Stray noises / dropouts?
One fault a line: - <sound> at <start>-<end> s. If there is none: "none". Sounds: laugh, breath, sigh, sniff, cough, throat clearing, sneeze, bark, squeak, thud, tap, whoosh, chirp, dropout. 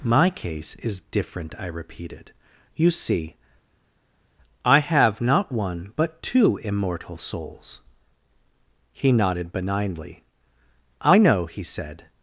none